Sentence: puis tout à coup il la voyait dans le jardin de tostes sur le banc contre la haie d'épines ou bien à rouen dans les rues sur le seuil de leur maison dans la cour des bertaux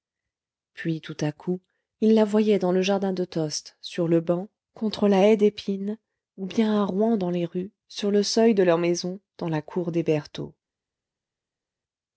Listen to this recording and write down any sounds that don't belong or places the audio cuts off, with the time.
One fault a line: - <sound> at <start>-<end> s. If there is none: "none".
none